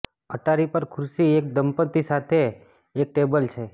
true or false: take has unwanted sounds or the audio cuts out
false